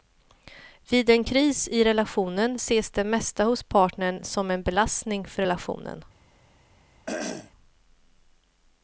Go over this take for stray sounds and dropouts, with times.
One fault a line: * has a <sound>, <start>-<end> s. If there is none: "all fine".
* has a throat clearing, 7.1-7.5 s